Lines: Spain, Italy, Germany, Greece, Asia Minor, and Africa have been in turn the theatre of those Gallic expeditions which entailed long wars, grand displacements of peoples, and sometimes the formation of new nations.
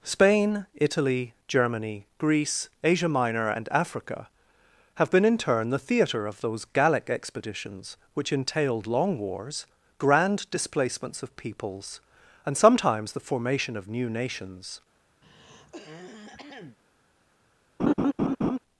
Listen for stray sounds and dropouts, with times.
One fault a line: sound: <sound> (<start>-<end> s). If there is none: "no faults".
sound: throat clearing (15.2-16.8 s)
sound: laugh (17.8-18.6 s)